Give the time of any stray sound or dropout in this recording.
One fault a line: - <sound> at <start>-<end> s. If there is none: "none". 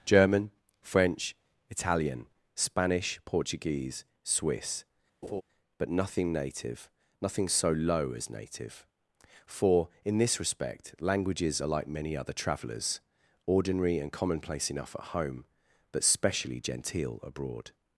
- laugh at 5.2-5.4 s